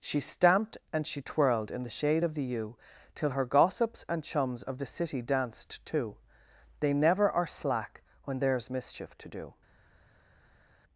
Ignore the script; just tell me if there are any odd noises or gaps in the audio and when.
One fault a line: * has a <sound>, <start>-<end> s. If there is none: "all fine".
all fine